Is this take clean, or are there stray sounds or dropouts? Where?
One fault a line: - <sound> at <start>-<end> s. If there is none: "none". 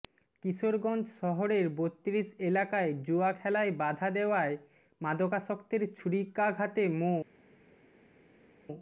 none